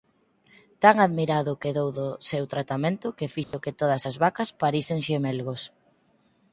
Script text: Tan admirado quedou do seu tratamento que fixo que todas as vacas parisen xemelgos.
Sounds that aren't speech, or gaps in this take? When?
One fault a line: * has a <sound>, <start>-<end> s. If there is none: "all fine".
* has a dropout, 3.4-3.5 s